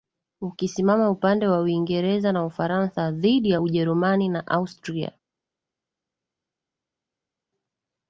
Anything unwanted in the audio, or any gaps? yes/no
no